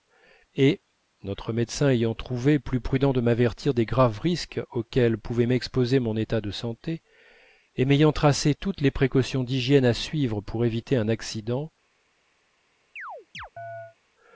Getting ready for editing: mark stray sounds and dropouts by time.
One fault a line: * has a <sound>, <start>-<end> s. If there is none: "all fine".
* has a chirp, 13.0-14.0 s